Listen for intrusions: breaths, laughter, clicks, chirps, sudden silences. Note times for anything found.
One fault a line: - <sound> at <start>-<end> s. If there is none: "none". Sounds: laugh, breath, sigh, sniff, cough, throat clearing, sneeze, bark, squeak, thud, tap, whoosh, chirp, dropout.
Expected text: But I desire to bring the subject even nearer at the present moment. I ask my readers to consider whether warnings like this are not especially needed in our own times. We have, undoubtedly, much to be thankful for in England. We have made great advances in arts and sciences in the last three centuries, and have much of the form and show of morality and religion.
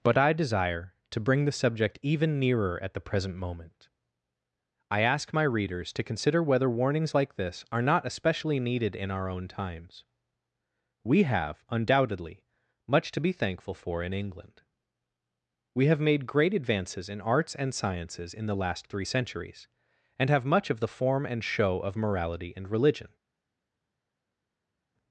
none